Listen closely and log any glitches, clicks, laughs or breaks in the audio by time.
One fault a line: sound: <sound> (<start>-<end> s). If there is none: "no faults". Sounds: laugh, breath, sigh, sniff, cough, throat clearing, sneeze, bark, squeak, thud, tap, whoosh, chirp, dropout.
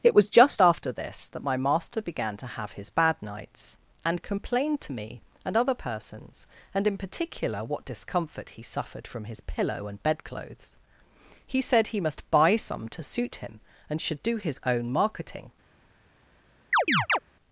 sound: chirp (16.7-17.2 s)